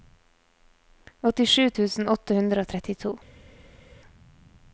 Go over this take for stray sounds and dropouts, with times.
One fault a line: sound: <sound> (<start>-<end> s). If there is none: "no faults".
no faults